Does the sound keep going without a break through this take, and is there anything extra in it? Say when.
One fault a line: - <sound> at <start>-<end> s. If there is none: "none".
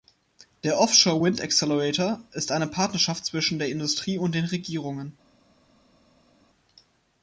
none